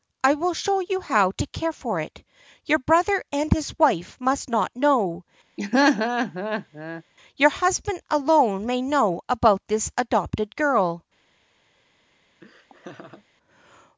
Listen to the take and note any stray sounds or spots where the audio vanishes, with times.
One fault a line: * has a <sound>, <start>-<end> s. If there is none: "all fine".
* has a laugh, 5.6-7.0 s
* has a laugh, 12.4-13.2 s